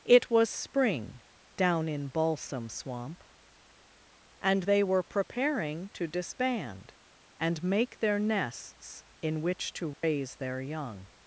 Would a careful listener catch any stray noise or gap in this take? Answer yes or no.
yes